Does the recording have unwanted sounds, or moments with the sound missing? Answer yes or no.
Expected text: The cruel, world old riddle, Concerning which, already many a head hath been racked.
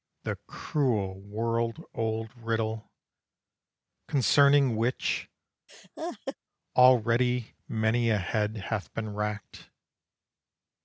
yes